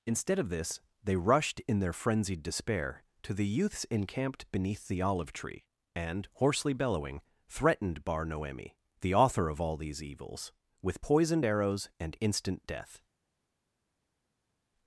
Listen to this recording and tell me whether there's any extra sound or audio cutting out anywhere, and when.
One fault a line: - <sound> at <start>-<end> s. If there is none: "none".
none